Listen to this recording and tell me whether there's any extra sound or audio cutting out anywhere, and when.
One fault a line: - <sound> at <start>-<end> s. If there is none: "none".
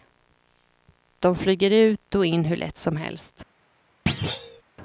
- thud at 4.1-4.6 s